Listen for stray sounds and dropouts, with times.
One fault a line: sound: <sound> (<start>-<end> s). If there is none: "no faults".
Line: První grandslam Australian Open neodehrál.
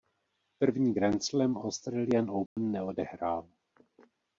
sound: dropout (2.5-2.6 s)